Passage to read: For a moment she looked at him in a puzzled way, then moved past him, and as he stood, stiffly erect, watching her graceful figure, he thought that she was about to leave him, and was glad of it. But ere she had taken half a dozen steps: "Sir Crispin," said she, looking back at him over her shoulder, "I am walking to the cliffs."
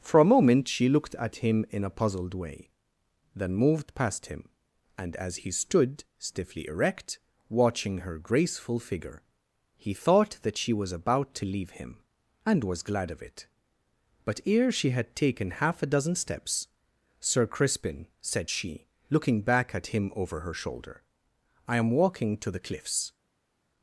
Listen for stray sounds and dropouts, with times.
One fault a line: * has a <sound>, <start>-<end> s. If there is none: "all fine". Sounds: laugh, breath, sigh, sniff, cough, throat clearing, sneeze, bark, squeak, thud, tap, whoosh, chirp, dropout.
all fine